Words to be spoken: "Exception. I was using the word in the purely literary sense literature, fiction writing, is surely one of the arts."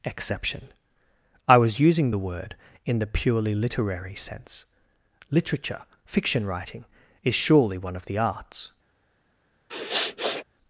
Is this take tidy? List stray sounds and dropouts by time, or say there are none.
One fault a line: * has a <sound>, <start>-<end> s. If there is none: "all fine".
* has a sniff, 9.7-10.4 s